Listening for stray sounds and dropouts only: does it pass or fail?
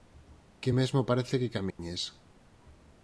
fail